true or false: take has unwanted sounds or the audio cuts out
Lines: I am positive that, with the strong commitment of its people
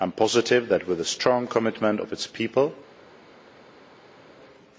false